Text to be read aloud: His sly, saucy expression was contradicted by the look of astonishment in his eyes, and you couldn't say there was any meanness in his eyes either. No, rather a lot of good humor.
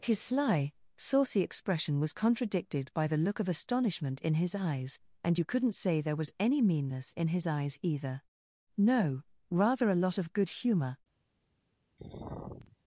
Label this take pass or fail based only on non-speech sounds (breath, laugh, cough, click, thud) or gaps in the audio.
fail